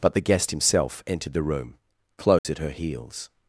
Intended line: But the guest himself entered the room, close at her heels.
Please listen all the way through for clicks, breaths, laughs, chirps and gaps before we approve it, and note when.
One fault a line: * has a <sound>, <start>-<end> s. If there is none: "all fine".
* has a dropout, 2.4-2.4 s